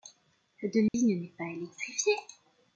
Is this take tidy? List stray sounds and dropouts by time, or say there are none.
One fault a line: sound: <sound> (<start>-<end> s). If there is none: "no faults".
sound: dropout (0.9-0.9 s)